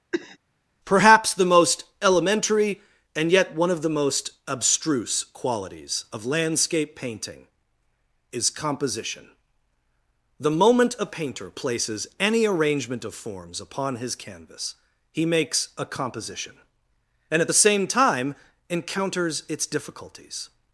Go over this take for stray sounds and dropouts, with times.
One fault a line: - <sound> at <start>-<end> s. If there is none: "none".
- cough at 0.1-0.4 s